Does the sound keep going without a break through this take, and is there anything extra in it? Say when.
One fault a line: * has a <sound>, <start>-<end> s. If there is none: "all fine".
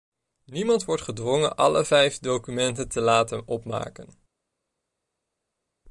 all fine